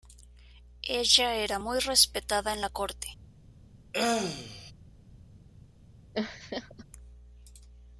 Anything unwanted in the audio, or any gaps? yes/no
yes